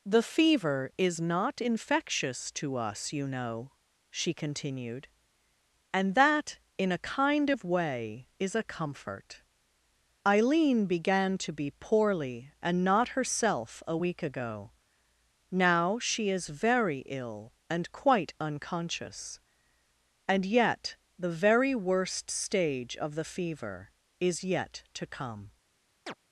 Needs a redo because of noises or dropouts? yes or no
yes